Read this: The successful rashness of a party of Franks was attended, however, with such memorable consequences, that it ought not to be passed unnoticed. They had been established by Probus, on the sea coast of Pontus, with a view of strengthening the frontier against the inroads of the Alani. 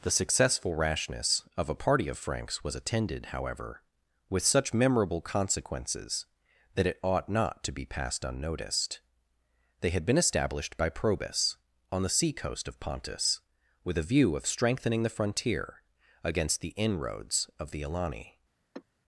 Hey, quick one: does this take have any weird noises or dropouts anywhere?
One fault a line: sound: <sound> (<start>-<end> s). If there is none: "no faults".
sound: sigh (18.7-18.8 s)